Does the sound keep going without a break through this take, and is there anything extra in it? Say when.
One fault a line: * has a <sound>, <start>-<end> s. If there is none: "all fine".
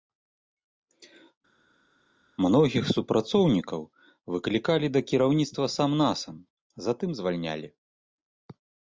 all fine